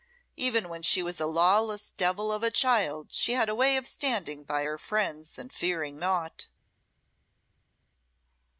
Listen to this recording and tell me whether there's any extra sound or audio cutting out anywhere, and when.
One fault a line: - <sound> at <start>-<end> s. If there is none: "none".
none